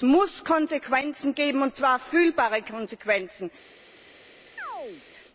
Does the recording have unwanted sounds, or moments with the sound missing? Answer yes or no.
yes